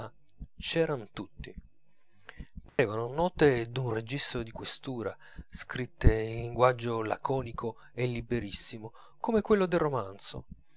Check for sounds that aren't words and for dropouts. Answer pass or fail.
fail